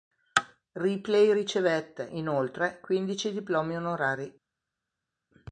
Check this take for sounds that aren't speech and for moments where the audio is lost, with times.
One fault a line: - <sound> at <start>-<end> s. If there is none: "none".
none